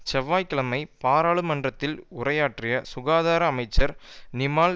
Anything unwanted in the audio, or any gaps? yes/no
no